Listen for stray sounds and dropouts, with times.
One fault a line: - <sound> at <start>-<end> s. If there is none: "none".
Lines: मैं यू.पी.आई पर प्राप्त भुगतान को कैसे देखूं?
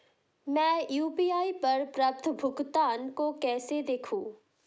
none